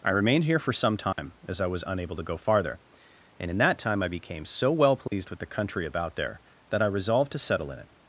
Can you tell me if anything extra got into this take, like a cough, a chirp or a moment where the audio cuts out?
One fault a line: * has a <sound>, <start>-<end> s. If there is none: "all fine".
* has a dropout, 1.1-1.2 s
* has a dropout, 5.1-5.1 s